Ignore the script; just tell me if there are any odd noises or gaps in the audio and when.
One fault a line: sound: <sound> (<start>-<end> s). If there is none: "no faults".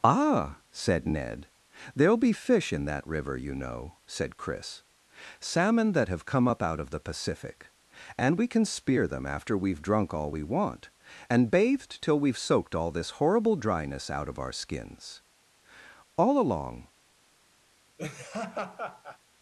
sound: laugh (18.0-19.2 s)